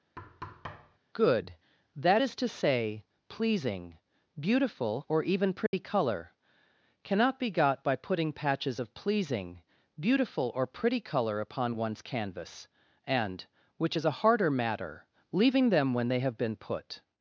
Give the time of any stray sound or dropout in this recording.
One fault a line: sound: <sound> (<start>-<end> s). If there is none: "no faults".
sound: thud (0.2-1.0 s)
sound: dropout (5.7-5.7 s)